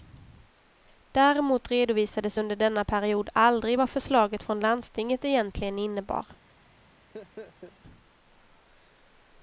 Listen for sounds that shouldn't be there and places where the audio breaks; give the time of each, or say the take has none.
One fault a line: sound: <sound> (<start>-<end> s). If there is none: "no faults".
sound: laugh (7.1-7.8 s)